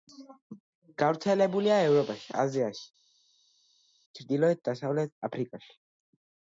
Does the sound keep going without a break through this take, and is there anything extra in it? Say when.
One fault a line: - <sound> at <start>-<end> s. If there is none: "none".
none